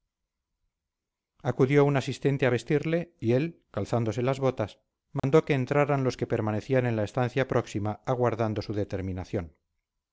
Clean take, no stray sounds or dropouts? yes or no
no